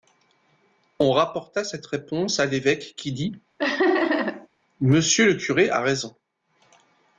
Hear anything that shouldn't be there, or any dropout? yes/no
yes